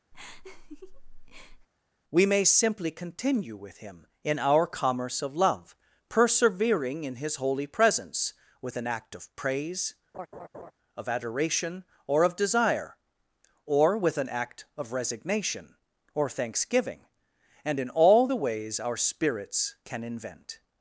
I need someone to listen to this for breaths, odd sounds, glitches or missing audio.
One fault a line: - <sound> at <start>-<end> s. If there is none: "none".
- laugh at 0.1-1.7 s
- laugh at 10.1-10.7 s